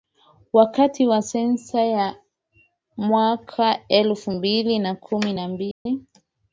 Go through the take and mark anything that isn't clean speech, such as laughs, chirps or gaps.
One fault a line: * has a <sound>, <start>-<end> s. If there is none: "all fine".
* has a dropout, 5.7-5.9 s